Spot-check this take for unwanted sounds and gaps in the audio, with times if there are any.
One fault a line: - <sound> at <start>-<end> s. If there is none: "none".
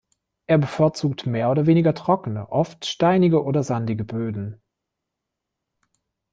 none